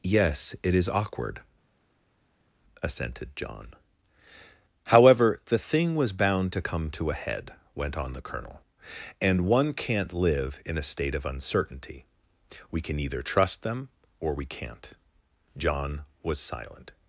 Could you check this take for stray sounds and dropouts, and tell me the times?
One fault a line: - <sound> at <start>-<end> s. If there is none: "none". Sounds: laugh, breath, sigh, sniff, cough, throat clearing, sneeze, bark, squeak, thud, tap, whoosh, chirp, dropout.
none